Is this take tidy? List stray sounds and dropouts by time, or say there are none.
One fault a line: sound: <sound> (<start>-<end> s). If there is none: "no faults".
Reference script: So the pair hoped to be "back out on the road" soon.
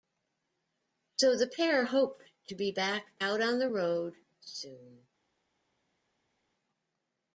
no faults